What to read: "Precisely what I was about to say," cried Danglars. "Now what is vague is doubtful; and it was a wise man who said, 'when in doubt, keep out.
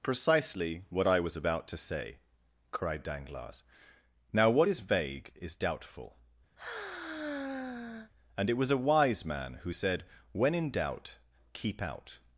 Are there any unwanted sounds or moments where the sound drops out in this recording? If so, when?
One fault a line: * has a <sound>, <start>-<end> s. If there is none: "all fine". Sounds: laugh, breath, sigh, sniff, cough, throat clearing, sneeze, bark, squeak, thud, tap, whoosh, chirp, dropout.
* has a sigh, 6.6-8.1 s